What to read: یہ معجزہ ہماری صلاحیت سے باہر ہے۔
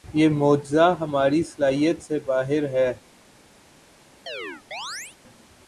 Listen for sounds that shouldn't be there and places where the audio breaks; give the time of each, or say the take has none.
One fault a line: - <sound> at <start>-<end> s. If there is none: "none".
- chirp at 4.3-5.2 s